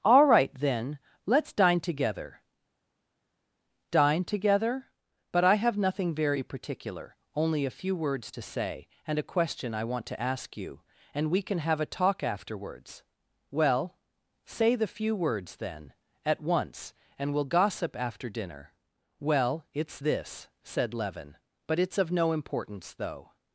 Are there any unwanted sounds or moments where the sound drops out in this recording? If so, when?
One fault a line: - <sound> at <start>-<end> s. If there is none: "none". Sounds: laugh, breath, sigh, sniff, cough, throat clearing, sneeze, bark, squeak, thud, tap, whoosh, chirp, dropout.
none